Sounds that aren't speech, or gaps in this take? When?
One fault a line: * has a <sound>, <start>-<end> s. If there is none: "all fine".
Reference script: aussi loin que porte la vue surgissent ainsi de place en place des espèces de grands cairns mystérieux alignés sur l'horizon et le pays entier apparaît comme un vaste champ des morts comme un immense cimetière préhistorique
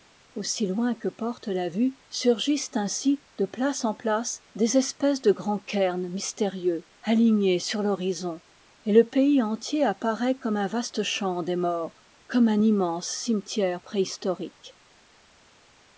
all fine